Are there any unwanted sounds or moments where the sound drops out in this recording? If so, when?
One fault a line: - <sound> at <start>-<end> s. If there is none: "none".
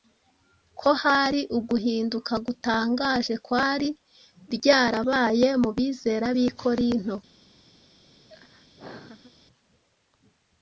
- laugh at 8.3-9.3 s